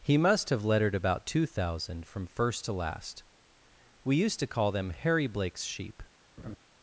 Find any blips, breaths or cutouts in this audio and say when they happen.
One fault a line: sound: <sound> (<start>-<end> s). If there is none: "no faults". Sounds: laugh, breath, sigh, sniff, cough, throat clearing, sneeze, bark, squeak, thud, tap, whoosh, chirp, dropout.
sound: laugh (6.4-6.6 s)